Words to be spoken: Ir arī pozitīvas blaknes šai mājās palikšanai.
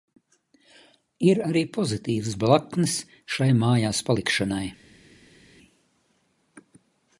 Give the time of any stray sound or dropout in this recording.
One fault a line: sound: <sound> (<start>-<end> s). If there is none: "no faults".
no faults